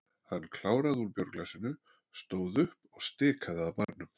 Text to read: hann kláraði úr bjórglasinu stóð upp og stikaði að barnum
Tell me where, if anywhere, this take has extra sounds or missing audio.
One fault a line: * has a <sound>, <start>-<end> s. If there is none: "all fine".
* has a dropout, 3.8-3.9 s